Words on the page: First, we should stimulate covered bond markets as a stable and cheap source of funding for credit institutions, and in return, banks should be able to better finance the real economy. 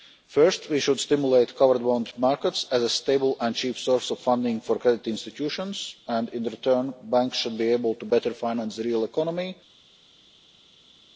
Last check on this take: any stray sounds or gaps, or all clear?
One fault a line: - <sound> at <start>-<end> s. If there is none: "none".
none